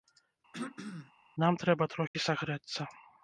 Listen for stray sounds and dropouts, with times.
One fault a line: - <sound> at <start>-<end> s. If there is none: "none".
- throat clearing at 0.5-1.1 s
- dropout at 2.1-2.1 s